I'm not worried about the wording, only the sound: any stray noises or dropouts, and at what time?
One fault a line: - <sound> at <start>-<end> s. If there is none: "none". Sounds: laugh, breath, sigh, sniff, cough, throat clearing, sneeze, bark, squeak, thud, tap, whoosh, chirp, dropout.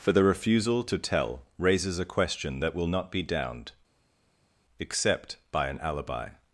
none